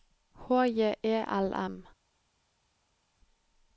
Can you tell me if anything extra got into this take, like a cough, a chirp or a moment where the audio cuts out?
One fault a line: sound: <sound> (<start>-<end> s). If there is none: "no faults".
no faults